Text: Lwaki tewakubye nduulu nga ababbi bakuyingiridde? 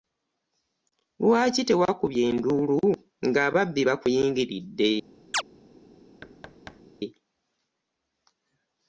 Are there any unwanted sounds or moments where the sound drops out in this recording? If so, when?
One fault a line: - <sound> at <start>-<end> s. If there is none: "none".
- chirp at 5.3-5.4 s
- thud at 6.2-6.8 s